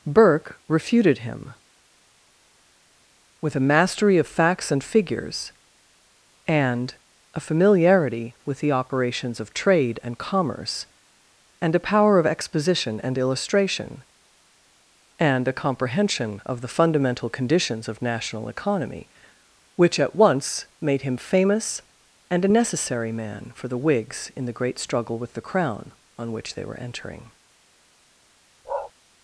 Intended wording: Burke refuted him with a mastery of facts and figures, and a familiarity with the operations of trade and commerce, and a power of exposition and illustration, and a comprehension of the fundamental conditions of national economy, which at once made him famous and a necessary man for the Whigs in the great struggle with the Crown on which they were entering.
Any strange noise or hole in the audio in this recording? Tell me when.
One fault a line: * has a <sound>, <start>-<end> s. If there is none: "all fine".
* has a bark, 28.6-28.9 s